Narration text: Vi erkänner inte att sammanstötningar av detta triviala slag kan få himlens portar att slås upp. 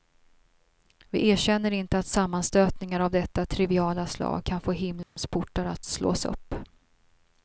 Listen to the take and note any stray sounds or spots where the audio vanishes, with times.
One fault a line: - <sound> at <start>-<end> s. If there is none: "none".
- dropout at 5.0-5.2 s